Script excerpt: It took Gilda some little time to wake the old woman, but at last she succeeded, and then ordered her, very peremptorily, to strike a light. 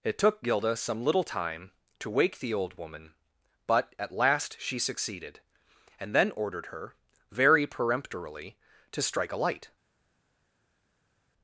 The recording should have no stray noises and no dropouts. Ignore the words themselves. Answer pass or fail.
pass